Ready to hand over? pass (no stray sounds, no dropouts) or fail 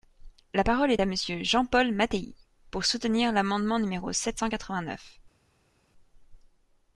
pass